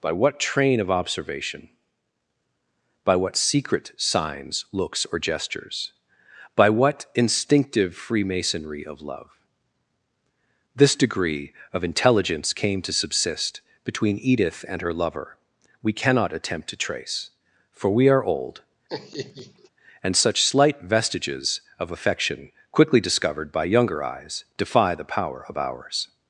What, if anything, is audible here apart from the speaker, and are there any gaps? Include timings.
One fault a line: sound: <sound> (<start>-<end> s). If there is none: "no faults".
sound: laugh (18.9-19.7 s)